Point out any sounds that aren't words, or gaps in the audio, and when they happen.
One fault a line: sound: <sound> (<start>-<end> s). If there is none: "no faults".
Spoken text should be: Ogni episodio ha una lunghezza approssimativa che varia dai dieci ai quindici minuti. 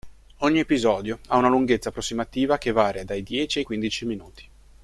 no faults